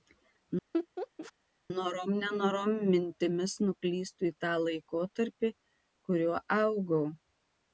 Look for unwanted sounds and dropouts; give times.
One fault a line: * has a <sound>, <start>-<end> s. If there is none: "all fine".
* has a laugh, 0.7-1.3 s